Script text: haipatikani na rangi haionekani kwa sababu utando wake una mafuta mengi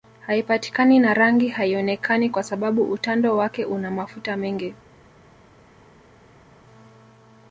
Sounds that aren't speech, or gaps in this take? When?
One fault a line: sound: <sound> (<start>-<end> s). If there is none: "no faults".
no faults